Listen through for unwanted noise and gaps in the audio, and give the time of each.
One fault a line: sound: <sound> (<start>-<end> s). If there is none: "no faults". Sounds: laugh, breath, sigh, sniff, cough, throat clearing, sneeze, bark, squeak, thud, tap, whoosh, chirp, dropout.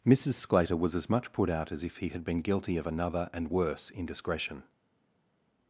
no faults